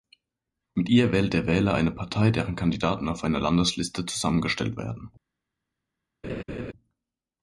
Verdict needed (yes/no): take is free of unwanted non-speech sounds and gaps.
no